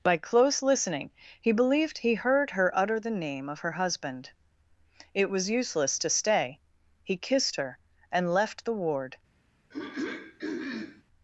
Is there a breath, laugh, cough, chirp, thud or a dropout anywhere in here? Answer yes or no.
yes